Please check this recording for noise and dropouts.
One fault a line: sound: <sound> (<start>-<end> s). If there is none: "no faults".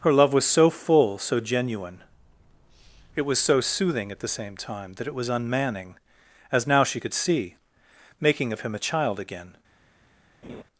sound: laugh (10.4-10.6 s)